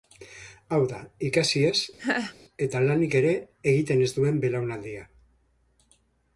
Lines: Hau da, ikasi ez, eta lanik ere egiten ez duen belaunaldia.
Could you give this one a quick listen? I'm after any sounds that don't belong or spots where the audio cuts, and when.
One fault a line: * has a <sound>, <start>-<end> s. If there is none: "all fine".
* has a laugh, 2.0-2.4 s